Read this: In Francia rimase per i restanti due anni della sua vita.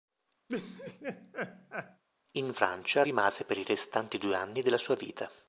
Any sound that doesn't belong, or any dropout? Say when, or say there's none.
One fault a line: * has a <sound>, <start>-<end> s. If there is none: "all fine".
* has a laugh, 0.5-2.0 s